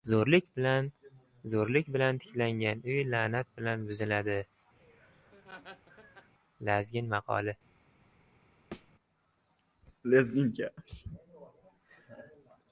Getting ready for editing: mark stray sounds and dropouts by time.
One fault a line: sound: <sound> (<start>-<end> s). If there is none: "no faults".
sound: laugh (4.8-6.3 s)
sound: thud (8.7-8.9 s)